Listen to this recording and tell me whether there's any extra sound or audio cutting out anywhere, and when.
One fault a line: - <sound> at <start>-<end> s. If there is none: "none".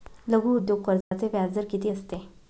- dropout at 1.0-1.1 s